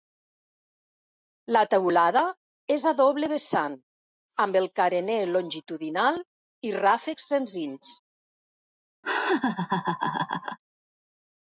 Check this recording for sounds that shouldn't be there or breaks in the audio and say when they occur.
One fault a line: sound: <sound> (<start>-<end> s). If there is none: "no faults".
sound: laugh (9.0-10.6 s)